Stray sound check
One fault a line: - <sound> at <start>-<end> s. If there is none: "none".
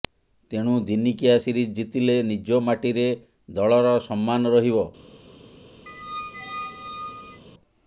- squeak at 5.9-7.4 s